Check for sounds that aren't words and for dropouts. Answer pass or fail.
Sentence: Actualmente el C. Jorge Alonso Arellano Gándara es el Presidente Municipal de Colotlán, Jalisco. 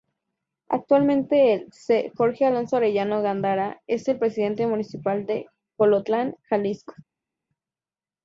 pass